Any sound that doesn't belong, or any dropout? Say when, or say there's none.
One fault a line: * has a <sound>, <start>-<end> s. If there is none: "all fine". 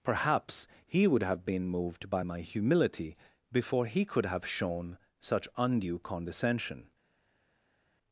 all fine